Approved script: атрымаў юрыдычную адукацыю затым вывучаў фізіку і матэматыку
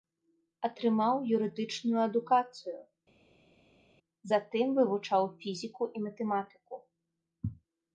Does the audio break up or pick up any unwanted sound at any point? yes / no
no